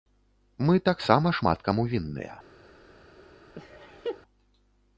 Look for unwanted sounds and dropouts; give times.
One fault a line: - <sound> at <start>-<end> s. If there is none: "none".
- laugh at 3.5-4.2 s